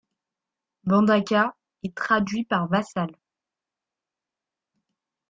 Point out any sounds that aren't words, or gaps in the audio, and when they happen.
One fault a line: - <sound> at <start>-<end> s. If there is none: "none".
none